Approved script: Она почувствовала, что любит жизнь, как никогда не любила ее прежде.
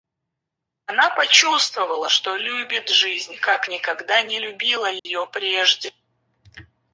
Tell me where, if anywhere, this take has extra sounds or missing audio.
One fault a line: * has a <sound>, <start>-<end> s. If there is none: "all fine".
* has a dropout, 5.0-5.1 s